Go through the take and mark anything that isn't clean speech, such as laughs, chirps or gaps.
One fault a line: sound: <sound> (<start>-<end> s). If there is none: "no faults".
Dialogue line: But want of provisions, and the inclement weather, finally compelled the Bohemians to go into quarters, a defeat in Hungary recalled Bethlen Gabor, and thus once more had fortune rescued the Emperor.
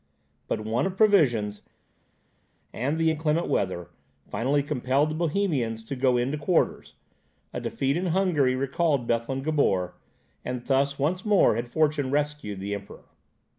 no faults